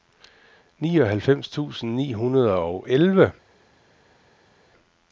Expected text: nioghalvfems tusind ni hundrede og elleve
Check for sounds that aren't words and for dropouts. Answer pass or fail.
pass